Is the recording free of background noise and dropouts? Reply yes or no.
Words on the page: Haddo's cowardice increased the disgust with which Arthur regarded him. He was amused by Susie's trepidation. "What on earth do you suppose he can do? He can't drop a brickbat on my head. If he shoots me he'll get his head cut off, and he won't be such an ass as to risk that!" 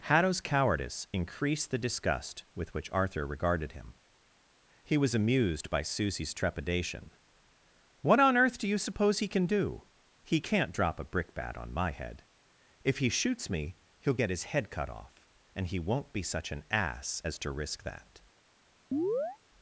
no